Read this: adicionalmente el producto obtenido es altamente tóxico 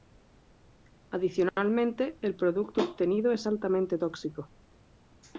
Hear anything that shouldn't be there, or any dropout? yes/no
no